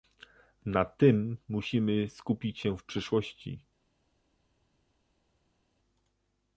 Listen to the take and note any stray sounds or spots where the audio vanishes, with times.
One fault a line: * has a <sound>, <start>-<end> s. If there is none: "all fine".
all fine